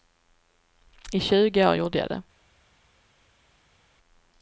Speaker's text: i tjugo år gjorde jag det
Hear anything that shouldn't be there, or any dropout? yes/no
no